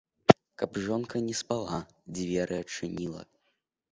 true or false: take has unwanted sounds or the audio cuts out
false